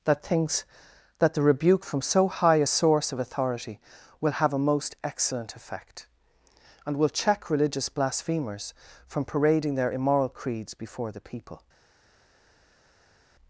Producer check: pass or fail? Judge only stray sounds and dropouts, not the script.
pass